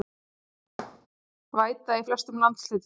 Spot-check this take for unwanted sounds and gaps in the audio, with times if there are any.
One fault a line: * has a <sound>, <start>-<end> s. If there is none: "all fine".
* has a thud, 0.8-1.1 s